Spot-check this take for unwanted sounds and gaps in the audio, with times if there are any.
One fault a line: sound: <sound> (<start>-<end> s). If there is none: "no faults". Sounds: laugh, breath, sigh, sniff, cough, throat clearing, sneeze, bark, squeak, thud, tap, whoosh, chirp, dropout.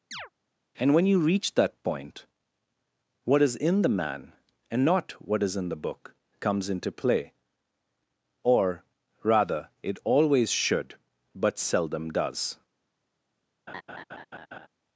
sound: chirp (0.1-0.3 s)
sound: laugh (13.7-14.7 s)